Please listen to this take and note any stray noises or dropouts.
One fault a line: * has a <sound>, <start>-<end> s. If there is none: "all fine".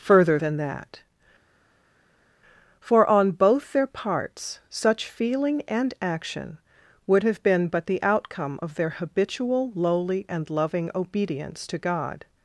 all fine